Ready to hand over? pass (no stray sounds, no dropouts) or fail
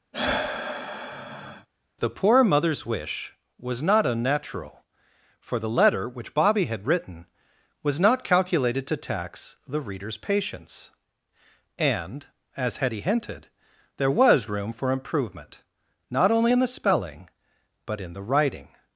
fail